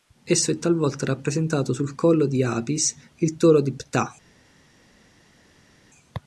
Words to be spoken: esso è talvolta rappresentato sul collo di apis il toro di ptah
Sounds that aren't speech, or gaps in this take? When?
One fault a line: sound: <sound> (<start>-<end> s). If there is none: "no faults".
no faults